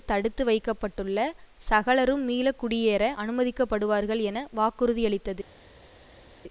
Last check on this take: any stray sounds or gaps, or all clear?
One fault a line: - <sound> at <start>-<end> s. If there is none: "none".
none